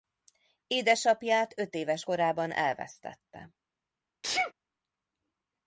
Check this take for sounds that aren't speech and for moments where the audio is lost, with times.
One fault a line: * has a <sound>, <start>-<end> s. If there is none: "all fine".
* has a sneeze, 4.2-4.5 s